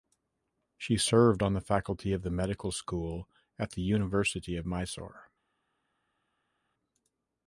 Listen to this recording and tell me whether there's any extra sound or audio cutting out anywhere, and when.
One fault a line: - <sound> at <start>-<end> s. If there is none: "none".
none